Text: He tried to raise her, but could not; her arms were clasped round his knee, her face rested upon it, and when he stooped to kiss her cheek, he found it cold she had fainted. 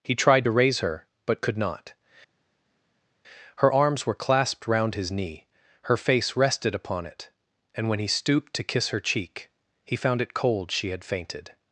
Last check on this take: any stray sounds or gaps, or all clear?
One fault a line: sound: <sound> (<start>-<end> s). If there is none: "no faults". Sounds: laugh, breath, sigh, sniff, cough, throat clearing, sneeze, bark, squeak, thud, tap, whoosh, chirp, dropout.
no faults